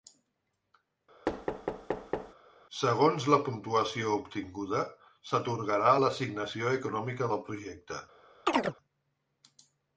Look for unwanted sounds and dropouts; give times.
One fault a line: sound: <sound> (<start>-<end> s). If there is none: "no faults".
sound: thud (1.3-2.3 s)
sound: chirp (8.5-8.7 s)